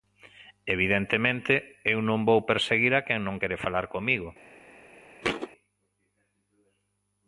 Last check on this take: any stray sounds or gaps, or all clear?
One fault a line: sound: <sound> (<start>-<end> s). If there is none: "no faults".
sound: thud (5.2-5.5 s)